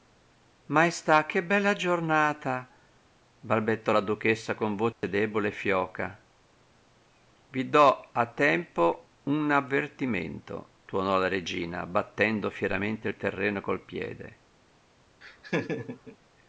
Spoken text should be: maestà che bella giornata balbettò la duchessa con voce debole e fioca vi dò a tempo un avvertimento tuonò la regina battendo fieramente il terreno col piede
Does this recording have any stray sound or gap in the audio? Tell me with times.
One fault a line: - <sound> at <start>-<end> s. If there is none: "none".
- dropout at 4.9-5.0 s
- laugh at 15.2-16.2 s